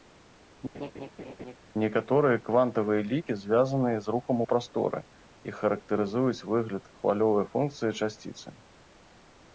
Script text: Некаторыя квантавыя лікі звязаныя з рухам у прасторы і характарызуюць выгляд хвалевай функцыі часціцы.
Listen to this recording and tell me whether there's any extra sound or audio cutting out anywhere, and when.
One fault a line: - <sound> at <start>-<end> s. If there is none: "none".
- laugh at 0.7-1.6 s